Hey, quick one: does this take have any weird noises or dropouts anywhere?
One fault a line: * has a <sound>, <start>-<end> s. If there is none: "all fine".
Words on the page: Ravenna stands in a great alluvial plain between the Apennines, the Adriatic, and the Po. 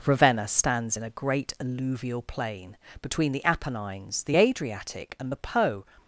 all fine